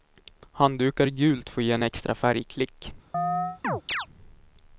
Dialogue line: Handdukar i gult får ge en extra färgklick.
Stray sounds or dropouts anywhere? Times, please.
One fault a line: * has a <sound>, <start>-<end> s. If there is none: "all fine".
* has a chirp, 3.1-4.1 s